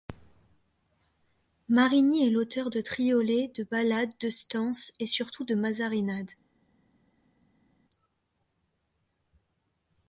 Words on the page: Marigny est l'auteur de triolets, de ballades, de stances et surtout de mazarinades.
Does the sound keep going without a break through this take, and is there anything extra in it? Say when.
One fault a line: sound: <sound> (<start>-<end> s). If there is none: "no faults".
no faults